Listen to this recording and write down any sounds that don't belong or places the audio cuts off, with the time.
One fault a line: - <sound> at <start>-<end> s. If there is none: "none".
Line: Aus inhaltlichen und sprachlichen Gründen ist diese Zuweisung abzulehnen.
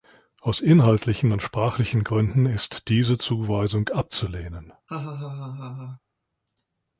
- laugh at 4.9-6.0 s